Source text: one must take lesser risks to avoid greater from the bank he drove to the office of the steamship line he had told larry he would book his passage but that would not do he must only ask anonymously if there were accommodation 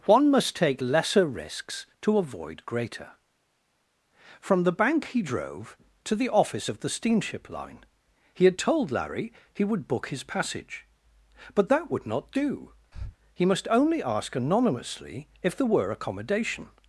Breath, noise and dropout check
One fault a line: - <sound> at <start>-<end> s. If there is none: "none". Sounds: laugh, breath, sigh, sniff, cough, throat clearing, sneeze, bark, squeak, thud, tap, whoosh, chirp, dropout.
- breath at 12.9-13.2 s